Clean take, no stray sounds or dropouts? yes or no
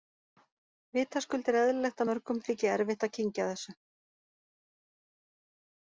yes